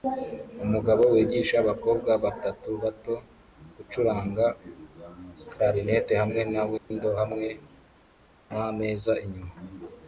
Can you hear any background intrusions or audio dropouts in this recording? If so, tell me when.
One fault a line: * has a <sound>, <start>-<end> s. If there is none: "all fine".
* has a dropout, 6.8-6.9 s